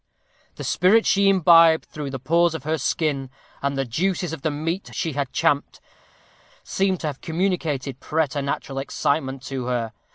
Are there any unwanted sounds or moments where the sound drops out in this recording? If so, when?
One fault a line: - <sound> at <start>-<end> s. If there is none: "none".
none